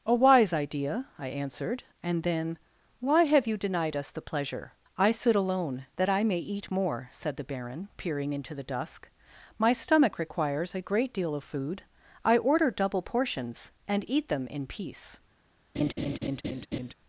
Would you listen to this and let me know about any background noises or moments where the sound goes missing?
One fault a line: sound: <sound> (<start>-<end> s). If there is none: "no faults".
sound: laugh (15.8-16.9 s)